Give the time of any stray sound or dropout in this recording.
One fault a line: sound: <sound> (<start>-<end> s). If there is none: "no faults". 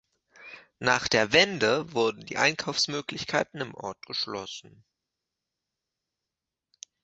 no faults